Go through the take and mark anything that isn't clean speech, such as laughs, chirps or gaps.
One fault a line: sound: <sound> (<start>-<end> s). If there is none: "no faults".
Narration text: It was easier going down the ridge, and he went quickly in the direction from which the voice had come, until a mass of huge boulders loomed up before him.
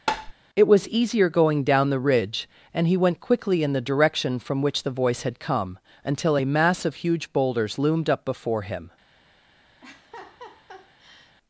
sound: tap (0.1-0.3 s)
sound: laugh (9.8-11.4 s)